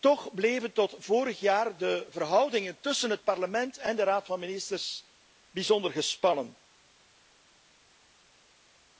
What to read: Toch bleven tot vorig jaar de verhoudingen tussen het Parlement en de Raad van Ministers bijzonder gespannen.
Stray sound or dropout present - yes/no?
no